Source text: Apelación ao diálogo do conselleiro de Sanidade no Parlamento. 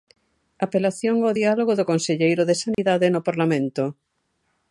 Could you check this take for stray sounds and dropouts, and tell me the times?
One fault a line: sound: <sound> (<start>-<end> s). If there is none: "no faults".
sound: dropout (2.7-2.8 s)